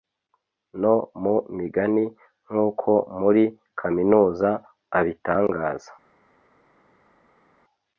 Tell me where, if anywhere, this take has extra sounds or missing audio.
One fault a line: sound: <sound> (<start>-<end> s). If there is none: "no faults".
no faults